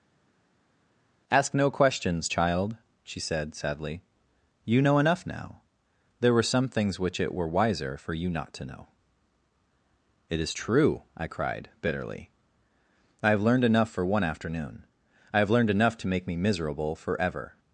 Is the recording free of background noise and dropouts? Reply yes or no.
yes